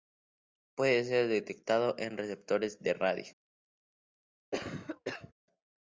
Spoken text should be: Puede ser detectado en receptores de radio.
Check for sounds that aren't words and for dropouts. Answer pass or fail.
fail